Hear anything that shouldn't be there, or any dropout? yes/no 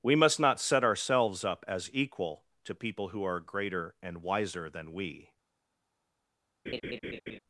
yes